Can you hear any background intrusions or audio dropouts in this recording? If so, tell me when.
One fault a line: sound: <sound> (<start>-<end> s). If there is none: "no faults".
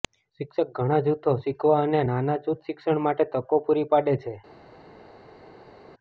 no faults